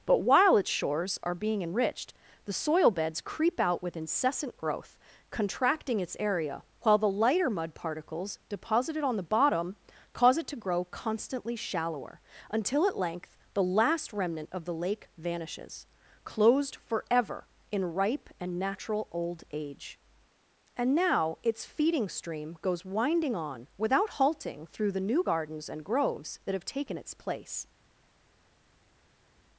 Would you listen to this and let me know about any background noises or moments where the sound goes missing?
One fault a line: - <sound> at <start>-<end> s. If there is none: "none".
none